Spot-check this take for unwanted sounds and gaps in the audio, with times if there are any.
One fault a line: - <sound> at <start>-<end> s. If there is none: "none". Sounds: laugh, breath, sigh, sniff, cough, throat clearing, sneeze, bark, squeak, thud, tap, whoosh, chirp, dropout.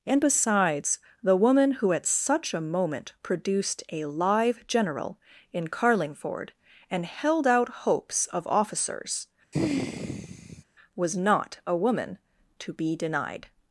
- sigh at 9.5-10.6 s